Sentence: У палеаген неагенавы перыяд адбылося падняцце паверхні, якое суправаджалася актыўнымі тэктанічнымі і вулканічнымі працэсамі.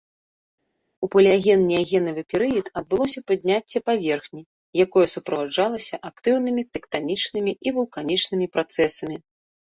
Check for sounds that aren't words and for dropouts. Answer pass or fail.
pass